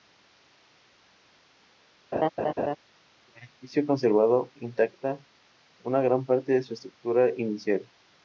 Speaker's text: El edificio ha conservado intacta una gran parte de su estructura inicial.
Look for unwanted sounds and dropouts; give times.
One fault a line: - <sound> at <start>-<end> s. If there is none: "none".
- laugh at 2.1-2.8 s